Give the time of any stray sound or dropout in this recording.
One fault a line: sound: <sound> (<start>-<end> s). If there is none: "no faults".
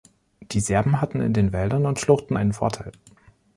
no faults